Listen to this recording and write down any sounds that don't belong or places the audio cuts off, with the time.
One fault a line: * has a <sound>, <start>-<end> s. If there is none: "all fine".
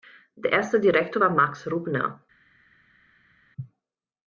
all fine